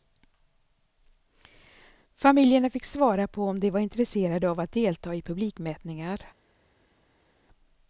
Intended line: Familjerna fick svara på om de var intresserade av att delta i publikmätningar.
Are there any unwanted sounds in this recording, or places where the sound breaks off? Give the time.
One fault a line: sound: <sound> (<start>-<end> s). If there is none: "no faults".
no faults